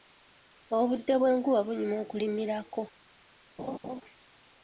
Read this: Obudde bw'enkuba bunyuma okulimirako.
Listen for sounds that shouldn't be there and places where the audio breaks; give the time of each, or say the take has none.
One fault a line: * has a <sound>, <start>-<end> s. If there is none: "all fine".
* has a laugh, 3.6-4.0 s